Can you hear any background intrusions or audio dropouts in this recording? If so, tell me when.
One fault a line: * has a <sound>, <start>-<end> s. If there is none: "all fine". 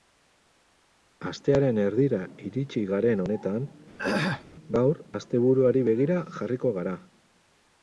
* has a throat clearing, 4.0-4.5 s